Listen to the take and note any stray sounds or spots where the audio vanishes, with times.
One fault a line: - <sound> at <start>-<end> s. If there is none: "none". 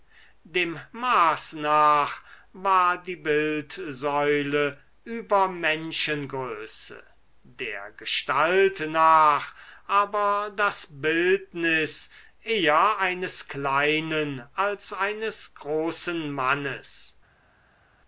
none